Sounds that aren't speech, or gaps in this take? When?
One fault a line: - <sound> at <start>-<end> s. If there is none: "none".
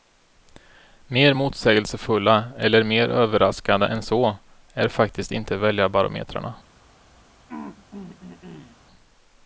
- throat clearing at 7.5-8.8 s